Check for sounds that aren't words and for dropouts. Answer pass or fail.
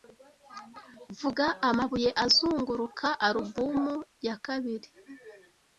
pass